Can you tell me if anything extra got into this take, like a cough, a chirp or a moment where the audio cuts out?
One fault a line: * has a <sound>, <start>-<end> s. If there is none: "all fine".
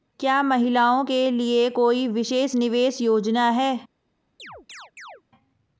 * has a chirp, 4.4-5.2 s